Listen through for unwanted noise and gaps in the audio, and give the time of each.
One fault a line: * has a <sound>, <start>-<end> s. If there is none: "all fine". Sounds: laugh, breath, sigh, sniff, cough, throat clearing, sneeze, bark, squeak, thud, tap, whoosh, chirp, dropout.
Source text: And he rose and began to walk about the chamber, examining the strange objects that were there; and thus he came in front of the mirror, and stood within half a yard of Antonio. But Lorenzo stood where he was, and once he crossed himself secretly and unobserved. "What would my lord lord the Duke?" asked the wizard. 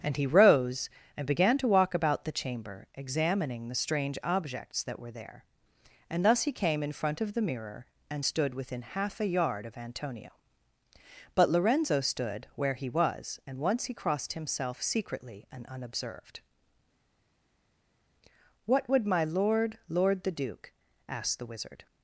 all fine